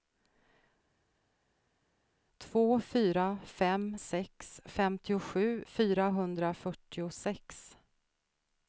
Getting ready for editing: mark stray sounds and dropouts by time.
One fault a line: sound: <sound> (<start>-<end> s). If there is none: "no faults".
no faults